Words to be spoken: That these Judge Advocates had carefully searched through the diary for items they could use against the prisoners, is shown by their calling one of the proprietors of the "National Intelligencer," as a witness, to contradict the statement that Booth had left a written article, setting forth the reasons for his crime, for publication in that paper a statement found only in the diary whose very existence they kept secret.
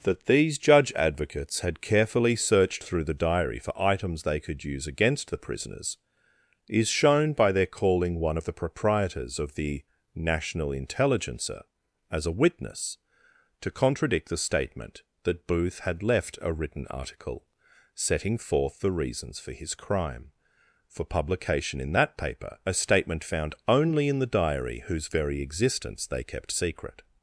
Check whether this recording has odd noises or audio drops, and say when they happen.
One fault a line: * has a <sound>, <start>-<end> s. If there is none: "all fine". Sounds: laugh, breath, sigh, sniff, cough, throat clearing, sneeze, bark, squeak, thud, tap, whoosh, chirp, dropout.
all fine